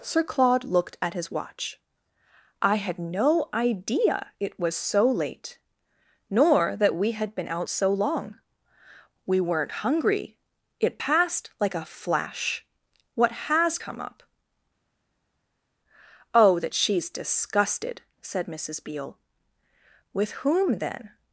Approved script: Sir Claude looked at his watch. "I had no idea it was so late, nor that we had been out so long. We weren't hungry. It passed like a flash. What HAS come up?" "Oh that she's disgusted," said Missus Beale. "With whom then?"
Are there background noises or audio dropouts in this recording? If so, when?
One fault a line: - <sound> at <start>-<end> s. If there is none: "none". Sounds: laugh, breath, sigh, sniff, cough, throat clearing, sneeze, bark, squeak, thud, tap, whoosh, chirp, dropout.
none